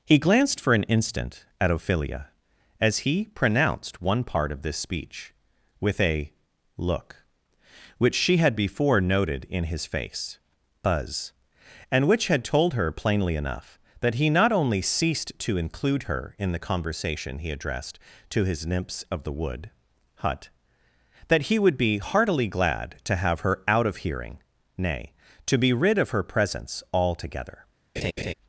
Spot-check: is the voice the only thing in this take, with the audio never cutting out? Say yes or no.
no